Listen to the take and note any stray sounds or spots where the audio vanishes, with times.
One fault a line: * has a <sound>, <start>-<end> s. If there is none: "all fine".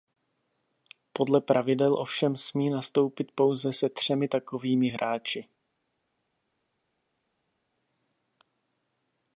all fine